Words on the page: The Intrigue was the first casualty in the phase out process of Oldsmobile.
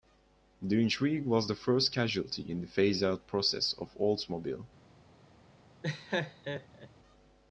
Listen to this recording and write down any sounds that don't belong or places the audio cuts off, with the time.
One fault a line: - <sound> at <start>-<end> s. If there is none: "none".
- laugh at 5.8-6.9 s